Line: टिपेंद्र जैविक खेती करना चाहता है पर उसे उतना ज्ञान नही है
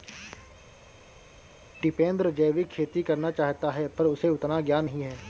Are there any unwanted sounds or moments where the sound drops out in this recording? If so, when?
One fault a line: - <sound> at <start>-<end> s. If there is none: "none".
none